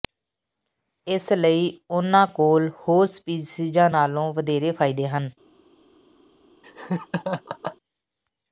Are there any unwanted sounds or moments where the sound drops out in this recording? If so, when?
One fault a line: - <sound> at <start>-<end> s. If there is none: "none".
- laugh at 6.6-7.8 s